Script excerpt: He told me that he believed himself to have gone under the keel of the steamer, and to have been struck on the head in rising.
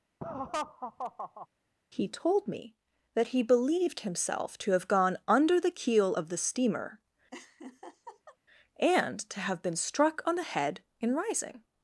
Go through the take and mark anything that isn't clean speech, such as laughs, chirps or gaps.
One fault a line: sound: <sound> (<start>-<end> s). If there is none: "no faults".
sound: laugh (0.2-1.5 s)
sound: laugh (7.3-8.4 s)